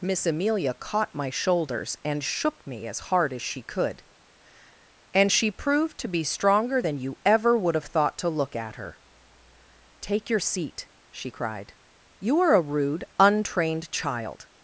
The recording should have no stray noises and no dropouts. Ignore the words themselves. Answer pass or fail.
pass